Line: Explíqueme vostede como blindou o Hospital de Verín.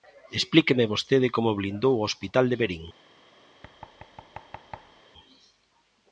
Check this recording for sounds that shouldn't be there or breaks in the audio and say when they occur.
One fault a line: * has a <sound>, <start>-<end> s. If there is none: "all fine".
* has a thud, 3.6-5.0 s